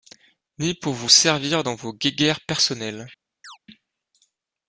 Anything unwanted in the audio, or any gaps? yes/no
yes